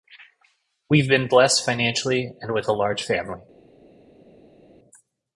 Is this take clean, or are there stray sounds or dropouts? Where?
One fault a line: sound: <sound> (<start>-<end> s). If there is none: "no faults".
no faults